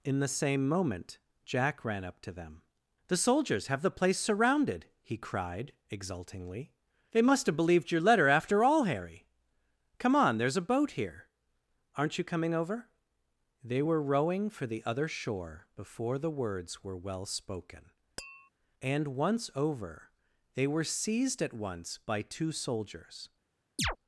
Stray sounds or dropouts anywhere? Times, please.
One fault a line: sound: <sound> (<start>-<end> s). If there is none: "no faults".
sound: tap (18.2-18.5 s)
sound: chirp (23.8-24.0 s)